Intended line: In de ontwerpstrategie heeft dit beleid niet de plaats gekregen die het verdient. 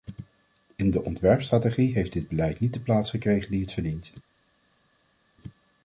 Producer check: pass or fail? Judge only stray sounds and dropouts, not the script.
pass